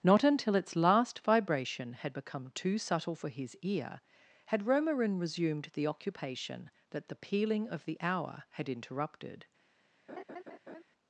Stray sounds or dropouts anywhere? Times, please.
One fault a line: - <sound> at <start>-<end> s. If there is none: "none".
- laugh at 10.1-10.8 s